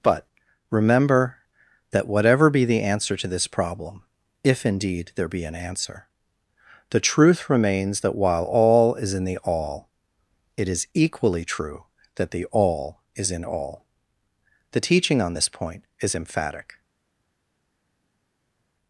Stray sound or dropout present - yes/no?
no